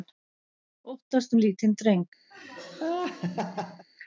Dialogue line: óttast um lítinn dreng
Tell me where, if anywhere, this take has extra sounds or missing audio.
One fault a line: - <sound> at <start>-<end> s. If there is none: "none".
- laugh at 2.3-3.9 s